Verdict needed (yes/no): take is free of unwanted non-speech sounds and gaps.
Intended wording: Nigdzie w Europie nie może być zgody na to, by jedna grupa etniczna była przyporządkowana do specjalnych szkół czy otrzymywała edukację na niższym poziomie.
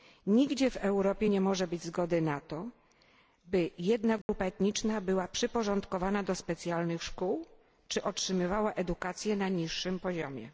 no